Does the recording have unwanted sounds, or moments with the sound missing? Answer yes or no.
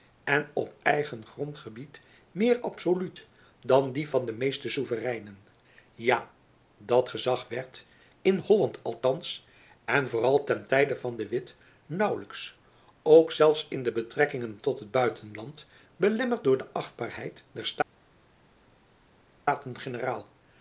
no